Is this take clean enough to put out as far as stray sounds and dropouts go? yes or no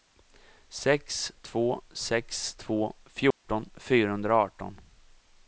no